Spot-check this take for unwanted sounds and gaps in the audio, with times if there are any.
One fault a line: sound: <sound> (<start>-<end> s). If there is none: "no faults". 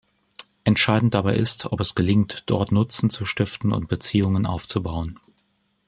no faults